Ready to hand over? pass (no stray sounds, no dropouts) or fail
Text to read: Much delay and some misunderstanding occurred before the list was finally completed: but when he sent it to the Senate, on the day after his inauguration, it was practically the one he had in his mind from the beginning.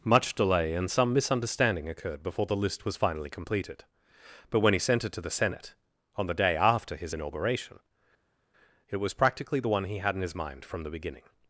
pass